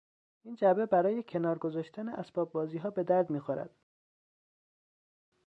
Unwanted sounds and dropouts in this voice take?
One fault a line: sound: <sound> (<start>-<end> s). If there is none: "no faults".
no faults